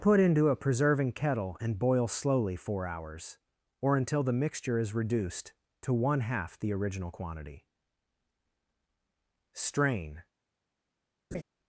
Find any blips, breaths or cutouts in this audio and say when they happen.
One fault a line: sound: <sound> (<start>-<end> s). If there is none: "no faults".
sound: laugh (11.3-11.4 s)